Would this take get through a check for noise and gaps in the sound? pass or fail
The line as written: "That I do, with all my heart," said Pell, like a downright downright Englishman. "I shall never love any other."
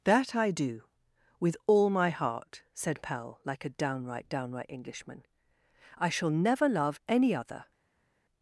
pass